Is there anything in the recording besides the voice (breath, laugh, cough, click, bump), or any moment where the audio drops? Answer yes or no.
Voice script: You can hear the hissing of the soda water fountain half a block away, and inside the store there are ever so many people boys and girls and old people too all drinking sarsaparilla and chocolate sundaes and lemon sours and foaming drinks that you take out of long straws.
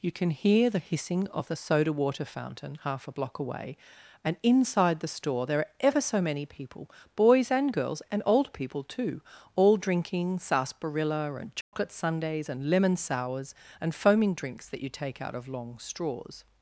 yes